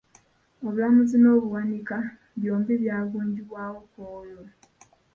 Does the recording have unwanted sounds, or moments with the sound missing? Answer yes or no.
no